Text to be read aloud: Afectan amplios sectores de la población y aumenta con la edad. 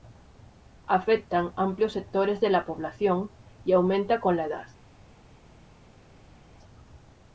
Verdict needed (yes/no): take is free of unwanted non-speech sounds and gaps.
yes